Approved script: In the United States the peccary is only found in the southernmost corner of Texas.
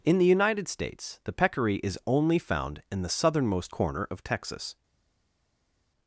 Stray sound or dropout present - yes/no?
no